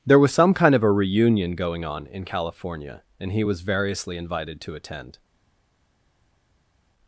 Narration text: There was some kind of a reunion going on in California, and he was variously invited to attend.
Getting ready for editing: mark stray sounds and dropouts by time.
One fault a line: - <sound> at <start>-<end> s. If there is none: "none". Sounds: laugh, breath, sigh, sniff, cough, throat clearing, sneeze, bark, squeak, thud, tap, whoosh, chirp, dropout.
none